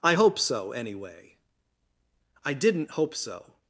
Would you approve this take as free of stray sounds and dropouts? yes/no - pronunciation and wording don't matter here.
yes